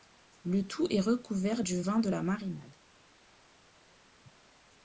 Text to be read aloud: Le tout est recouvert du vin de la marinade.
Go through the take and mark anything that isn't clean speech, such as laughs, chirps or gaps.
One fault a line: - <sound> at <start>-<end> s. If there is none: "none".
none